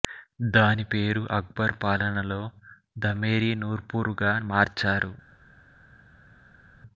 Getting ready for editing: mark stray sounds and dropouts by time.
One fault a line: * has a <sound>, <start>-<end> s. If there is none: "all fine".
all fine